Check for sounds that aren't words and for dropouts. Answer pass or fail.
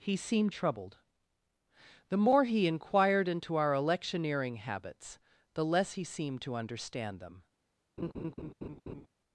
fail